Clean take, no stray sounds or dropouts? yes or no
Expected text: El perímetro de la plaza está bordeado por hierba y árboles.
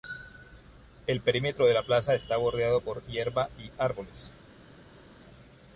yes